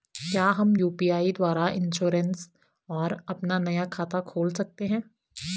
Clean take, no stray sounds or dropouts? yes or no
yes